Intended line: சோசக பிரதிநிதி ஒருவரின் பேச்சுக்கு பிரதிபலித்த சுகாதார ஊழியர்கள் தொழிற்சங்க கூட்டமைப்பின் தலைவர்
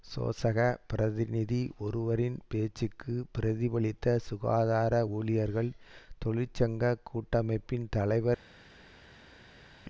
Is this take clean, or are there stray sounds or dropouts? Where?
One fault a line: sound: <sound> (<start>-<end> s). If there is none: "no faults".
no faults